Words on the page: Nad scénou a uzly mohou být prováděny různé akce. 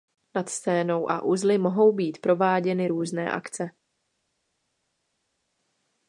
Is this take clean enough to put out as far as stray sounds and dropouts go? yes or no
yes